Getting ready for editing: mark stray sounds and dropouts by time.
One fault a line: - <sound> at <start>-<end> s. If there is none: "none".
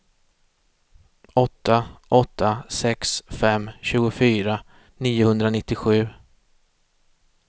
none